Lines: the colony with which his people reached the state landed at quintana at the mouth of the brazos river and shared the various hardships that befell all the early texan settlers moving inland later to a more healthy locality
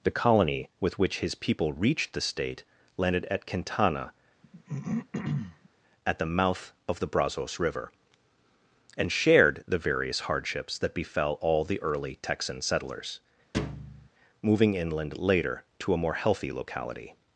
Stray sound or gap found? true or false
true